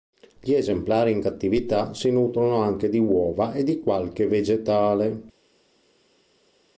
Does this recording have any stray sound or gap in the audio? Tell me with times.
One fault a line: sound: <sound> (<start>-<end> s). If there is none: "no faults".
no faults